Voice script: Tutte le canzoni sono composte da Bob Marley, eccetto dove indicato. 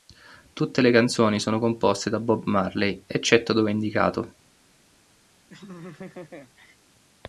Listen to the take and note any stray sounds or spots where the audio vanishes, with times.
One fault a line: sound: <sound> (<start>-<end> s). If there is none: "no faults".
sound: laugh (5.5-6.8 s)